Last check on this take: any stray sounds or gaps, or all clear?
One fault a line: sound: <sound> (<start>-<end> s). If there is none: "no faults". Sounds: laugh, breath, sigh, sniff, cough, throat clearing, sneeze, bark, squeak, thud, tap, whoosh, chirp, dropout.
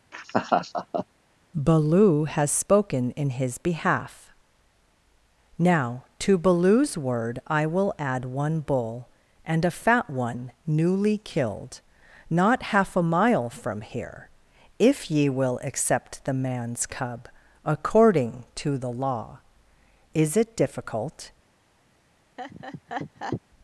sound: laugh (0.1-1.1 s)
sound: laugh (22.4-23.4 s)